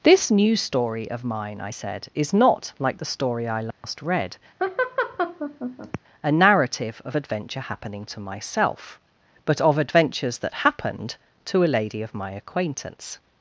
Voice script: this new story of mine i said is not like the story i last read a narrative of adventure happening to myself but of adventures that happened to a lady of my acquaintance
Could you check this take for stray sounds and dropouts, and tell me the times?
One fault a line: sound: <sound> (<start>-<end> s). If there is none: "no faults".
sound: dropout (3.7-3.8 s)
sound: laugh (4.6-6.0 s)